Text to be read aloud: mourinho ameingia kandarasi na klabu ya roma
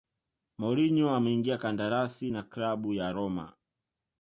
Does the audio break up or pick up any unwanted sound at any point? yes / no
no